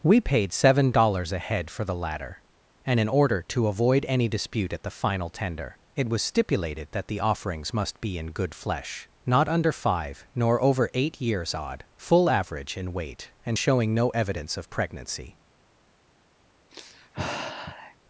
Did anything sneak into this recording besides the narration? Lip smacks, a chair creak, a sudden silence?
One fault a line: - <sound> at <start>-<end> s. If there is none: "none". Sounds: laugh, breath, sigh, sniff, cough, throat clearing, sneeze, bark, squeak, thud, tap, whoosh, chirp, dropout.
- sigh at 16.7-18.0 s